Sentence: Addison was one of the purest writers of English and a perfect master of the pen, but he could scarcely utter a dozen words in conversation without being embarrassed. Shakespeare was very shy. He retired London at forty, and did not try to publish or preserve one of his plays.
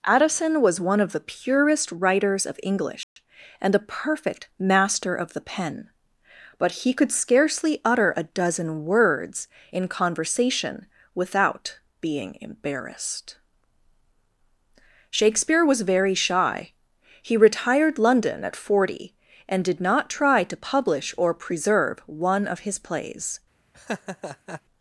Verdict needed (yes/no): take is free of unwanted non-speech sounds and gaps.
no